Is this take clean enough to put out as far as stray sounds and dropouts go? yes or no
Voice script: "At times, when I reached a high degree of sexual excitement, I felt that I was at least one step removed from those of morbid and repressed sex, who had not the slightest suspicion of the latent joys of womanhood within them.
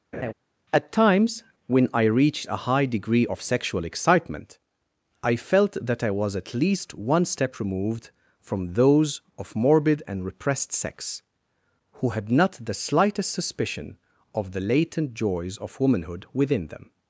no